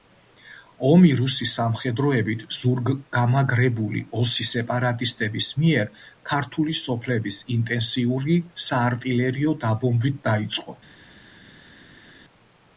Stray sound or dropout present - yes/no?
no